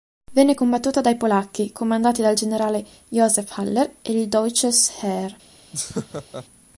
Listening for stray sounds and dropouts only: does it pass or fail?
fail